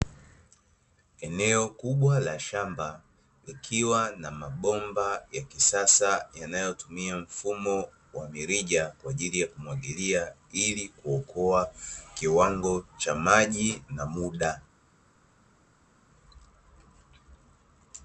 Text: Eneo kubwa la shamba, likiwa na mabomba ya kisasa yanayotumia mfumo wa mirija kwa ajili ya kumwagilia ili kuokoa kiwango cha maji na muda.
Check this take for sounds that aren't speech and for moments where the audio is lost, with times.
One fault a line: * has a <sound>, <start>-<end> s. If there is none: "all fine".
all fine